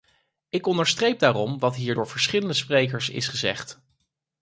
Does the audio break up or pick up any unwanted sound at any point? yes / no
no